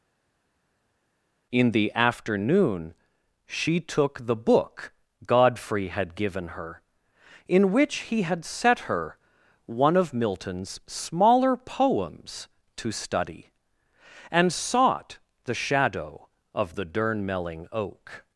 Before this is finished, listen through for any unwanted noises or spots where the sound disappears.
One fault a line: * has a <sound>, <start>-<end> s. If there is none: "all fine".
all fine